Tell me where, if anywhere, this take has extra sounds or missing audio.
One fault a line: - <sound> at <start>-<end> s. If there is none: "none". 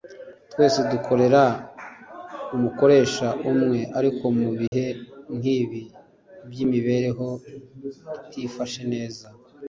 - dropout at 4.7-4.7 s